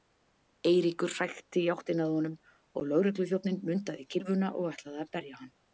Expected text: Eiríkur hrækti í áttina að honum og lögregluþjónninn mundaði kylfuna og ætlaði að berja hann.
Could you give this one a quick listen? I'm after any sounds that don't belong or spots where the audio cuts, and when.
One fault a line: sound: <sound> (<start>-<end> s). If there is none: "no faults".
no faults